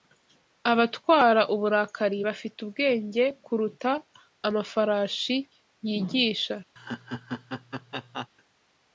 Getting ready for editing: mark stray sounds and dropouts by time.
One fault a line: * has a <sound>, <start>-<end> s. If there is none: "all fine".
* has a laugh, 6.8-8.3 s